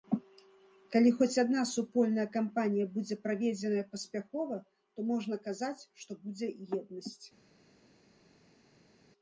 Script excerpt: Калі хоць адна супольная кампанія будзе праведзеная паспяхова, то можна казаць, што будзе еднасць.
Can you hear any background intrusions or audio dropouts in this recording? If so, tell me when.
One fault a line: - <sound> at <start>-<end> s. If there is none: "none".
none